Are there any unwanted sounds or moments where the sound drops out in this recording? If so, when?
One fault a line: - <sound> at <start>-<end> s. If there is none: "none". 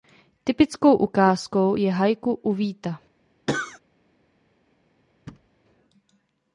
- cough at 3.5-3.8 s
- thud at 5.3-5.5 s